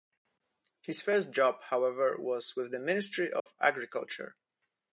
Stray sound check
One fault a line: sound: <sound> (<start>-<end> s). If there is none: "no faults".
sound: dropout (3.4-3.5 s)